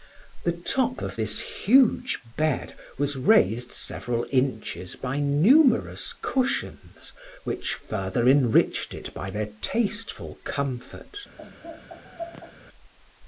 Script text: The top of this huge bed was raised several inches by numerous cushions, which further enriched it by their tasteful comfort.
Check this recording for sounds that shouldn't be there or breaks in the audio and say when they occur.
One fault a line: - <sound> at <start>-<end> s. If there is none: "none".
- laugh at 11.4-12.5 s